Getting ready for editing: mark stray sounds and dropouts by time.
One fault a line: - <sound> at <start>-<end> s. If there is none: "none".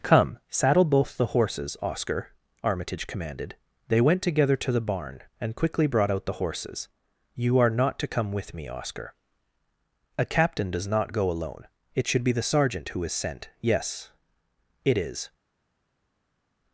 none